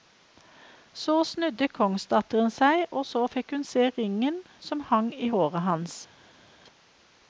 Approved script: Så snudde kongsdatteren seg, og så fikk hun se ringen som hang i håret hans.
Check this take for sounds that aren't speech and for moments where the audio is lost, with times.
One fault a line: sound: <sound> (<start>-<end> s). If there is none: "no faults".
no faults